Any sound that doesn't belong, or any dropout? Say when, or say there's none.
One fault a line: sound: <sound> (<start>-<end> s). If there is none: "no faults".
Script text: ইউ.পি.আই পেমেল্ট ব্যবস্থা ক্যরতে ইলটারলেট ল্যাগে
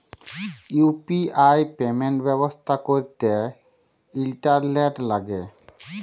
no faults